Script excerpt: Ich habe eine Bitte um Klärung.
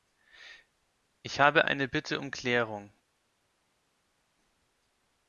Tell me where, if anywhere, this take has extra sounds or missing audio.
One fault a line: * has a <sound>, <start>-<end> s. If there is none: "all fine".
all fine